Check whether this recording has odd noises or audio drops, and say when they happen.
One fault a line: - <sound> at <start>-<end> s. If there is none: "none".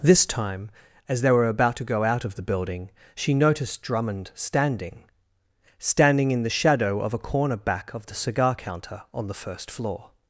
none